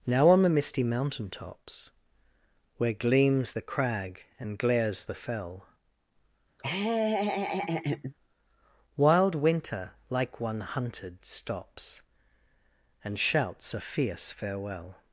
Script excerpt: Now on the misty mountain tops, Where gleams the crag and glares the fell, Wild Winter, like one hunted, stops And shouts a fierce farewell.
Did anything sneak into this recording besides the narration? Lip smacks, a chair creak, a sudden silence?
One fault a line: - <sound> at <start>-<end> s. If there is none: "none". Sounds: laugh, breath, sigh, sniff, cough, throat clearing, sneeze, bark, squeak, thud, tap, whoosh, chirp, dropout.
- laugh at 6.6-8.1 s